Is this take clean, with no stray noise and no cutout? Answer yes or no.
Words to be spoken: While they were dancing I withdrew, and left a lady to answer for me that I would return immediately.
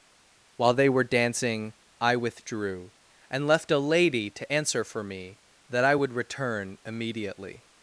yes